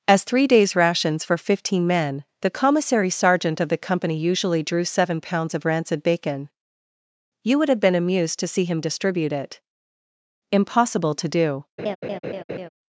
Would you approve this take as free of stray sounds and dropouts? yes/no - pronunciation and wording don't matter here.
no